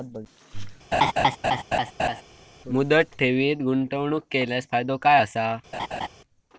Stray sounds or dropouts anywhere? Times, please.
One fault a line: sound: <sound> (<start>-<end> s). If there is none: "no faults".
sound: laugh (0.9-2.2 s)
sound: laugh (5.7-6.1 s)